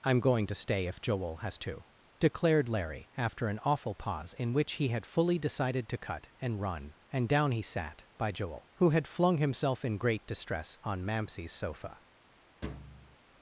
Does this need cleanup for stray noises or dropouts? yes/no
yes